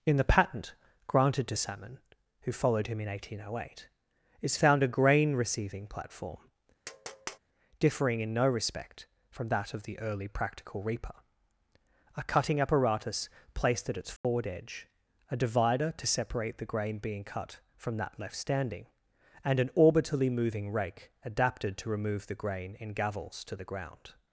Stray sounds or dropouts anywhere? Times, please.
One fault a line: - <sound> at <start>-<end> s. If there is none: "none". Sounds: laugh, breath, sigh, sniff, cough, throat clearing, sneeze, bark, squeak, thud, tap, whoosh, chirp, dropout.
- tap at 6.8-7.4 s
- dropout at 14.2-14.2 s